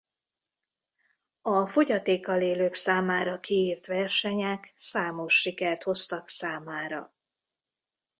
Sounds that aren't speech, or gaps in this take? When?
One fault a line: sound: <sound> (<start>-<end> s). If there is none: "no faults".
no faults